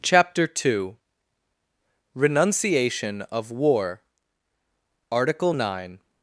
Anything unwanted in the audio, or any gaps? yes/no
no